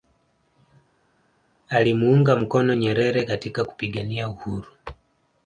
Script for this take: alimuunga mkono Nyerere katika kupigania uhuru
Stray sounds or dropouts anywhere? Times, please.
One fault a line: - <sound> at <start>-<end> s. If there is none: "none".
none